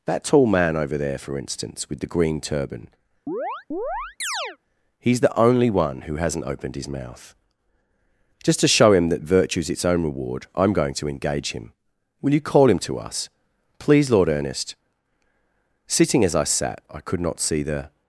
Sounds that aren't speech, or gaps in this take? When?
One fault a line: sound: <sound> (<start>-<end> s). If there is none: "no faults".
sound: chirp (3.3-4.6 s)